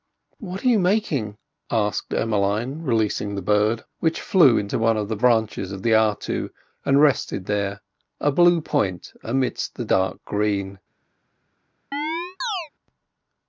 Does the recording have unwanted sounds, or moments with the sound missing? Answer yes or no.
yes